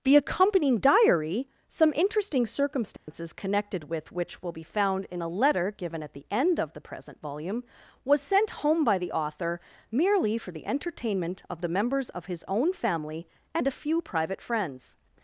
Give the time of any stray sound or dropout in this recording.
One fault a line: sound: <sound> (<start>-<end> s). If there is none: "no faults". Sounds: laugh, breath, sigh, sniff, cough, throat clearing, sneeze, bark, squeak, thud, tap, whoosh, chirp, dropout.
sound: dropout (3.0-3.1 s)